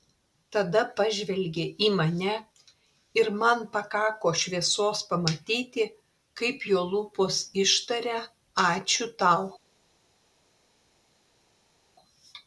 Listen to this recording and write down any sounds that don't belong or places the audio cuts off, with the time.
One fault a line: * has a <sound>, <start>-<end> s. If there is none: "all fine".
all fine